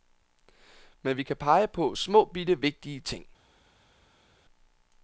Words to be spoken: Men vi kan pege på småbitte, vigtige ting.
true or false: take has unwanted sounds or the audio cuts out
false